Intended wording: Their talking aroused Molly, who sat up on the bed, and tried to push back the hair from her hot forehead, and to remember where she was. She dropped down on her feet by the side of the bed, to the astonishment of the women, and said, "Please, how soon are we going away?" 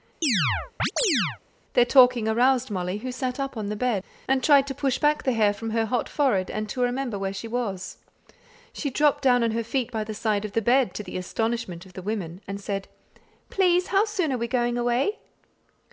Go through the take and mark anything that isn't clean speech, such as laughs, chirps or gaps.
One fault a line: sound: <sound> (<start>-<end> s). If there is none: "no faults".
sound: chirp (0.2-1.4 s)